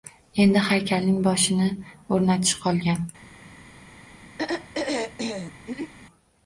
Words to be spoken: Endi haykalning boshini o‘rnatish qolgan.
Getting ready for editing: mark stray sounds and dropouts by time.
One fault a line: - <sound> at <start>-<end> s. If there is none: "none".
- throat clearing at 4.4-5.9 s